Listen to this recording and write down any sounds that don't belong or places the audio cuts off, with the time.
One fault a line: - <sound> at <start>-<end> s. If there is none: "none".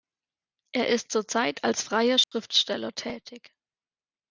- dropout at 2.2-2.3 s